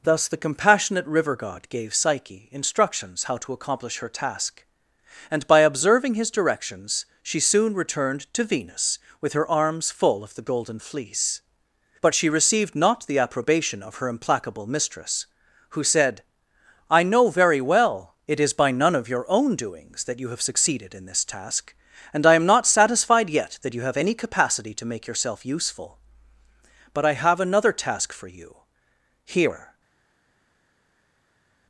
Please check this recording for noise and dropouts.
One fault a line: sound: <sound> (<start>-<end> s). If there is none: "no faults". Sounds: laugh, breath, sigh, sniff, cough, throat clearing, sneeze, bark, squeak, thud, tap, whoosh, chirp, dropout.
no faults